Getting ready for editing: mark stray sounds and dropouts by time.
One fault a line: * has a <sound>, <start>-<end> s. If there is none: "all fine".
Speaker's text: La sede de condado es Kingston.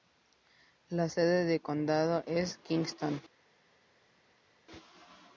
all fine